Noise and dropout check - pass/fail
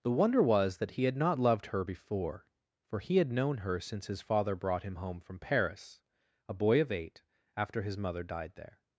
pass